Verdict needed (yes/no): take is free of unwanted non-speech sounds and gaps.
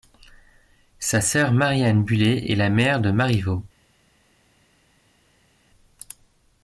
yes